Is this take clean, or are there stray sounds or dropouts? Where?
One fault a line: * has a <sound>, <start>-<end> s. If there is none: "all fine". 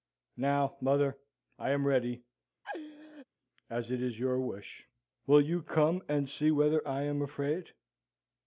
* has a laugh, 2.6-3.3 s